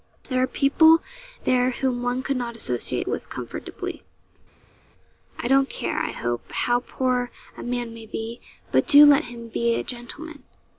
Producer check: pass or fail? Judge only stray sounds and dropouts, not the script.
pass